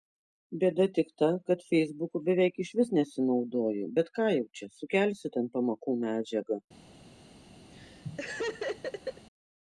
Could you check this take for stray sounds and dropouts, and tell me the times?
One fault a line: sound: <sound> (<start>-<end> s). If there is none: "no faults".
sound: laugh (7.7-9.3 s)